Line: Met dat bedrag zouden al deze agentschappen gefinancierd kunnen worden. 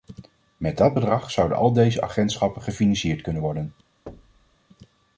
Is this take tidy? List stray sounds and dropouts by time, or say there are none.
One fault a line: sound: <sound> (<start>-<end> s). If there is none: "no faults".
sound: thud (4.1-4.6 s)